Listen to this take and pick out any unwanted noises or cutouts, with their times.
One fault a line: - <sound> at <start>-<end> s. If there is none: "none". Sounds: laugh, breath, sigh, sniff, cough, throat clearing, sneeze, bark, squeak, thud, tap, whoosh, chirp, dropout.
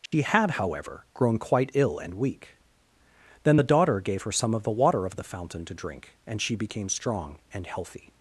- dropout at 0.1-0.1 s